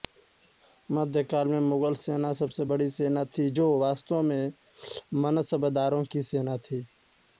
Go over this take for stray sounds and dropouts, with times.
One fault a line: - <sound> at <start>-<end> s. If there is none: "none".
none